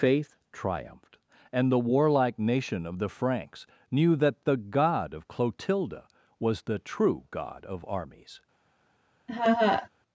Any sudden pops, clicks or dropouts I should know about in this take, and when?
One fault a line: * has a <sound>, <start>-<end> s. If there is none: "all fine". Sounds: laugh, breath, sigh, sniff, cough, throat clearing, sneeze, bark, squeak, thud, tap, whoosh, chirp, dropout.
* has a laugh, 9.3-9.9 s